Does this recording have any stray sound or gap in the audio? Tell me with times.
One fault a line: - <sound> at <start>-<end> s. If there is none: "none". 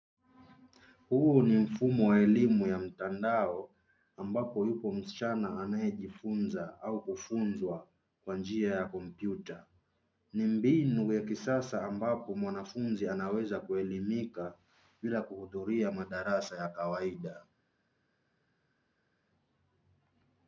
none